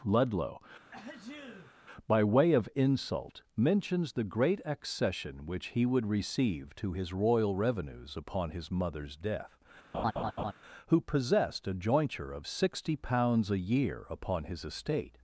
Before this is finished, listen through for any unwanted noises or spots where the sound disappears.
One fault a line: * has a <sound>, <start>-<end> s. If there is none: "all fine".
* has a sneeze, 0.9-1.7 s
* has a laugh, 9.9-10.5 s